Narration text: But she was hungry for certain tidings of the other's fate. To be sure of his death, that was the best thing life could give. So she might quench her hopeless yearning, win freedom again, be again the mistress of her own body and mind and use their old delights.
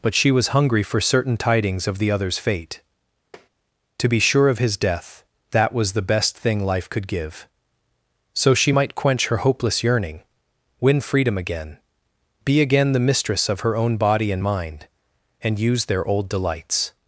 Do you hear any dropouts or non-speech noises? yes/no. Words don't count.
yes